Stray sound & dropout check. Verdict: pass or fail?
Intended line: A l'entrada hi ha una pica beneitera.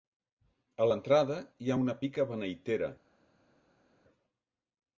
pass